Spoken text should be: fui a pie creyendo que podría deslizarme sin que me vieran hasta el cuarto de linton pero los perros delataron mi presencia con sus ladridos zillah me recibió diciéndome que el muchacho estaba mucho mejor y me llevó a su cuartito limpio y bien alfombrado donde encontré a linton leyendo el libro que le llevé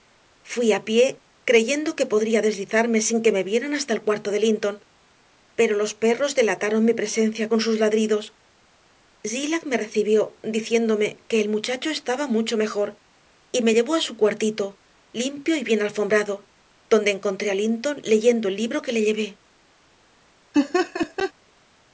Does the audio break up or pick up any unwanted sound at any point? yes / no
yes